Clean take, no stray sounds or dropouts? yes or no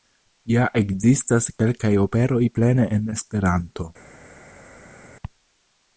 yes